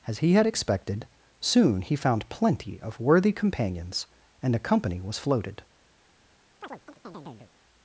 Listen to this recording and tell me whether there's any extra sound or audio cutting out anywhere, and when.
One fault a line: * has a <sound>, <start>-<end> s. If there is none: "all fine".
* has a chirp, 6.6-7.5 s